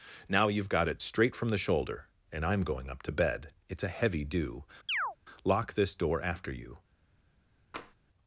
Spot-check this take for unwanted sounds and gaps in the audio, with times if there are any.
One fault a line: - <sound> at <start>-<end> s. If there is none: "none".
- chirp at 4.9-5.2 s
- tap at 7.7-8.0 s